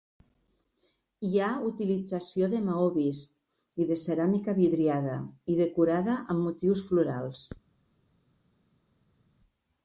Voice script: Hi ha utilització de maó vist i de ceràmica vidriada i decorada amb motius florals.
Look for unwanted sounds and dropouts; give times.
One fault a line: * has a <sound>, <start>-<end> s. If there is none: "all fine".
all fine